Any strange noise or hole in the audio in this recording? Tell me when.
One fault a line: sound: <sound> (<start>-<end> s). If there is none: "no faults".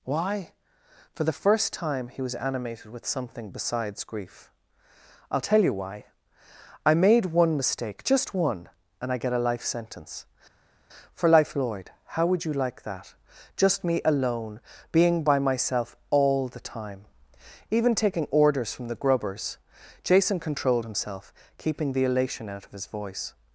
no faults